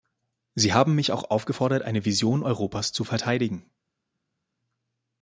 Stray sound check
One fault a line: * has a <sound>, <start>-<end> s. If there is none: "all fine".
all fine